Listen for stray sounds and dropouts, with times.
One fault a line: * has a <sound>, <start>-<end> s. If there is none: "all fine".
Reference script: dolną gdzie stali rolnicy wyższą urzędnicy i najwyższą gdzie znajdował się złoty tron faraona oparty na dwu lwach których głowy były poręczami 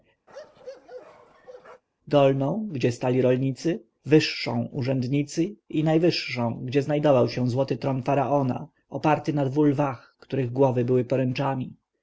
* has a bark, 0.3-1.8 s